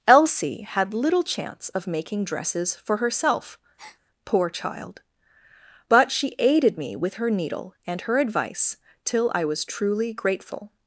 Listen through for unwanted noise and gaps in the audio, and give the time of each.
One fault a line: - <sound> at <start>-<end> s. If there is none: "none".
- breath at 3.8-4.0 s